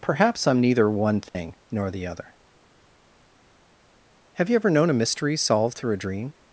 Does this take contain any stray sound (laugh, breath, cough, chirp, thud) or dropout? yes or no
yes